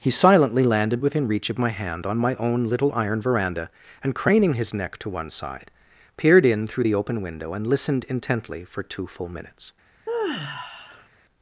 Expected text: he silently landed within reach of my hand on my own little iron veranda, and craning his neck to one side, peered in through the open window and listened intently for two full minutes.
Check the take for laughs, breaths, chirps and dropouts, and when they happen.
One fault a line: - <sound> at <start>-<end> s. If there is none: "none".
- sigh at 10.1-11.1 s